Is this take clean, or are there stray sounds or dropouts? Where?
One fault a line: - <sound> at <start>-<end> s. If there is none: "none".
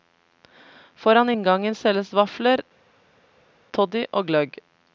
none